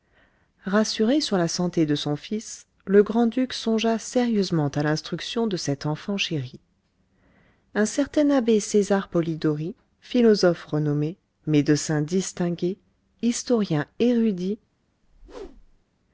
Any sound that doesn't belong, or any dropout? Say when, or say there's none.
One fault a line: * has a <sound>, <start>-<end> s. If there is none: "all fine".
* has a whoosh, 15.0-15.8 s